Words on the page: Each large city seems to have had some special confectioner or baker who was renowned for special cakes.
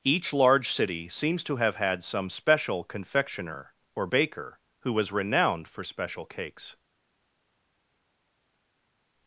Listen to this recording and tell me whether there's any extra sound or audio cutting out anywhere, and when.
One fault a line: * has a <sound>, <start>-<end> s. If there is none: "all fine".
all fine